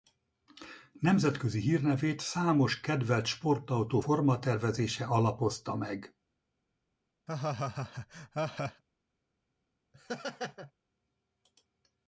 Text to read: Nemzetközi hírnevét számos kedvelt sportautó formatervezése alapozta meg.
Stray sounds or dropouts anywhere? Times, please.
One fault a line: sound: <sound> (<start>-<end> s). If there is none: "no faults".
sound: laugh (7.3-8.8 s)
sound: laugh (9.9-10.7 s)